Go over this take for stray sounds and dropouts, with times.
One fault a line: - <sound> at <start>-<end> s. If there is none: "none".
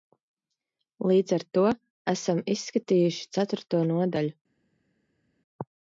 none